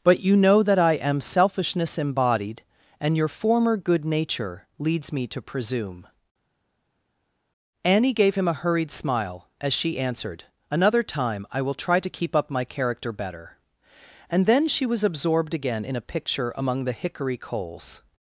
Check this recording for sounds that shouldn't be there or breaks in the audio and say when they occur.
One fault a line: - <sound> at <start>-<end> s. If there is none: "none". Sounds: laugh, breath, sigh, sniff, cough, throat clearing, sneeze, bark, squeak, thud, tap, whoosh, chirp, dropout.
none